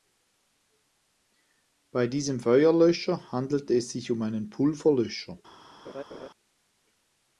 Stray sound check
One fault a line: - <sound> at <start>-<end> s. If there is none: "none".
- laugh at 5.9-6.3 s